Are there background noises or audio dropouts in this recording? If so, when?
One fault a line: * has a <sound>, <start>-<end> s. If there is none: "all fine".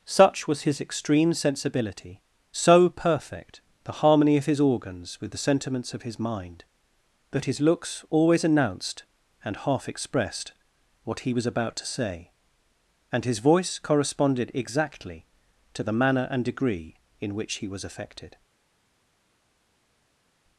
all fine